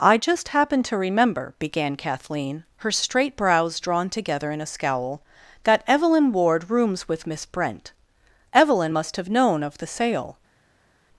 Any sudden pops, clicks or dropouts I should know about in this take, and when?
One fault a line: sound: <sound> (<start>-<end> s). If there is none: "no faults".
no faults